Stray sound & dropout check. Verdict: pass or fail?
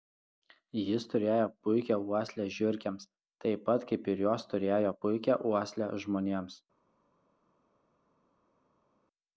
pass